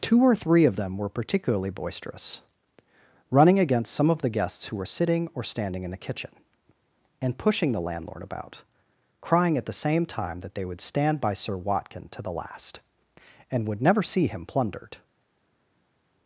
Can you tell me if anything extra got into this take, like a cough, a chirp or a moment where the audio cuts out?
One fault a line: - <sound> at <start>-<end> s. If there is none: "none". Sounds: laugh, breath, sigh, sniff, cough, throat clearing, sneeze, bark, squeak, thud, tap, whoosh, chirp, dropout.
none